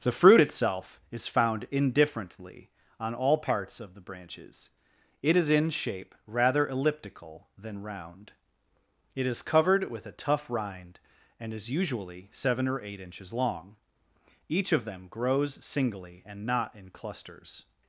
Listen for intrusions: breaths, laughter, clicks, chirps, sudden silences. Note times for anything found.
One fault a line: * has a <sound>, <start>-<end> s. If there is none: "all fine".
all fine